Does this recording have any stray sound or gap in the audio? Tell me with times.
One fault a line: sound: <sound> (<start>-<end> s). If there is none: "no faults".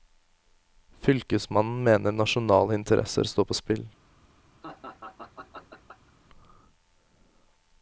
sound: laugh (4.6-6.1 s)